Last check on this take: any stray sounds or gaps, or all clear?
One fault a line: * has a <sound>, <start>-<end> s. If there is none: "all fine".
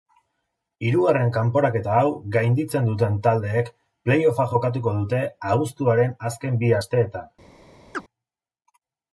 * has a chirp, 7.9-8.0 s